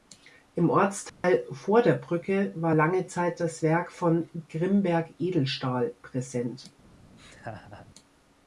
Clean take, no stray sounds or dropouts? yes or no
no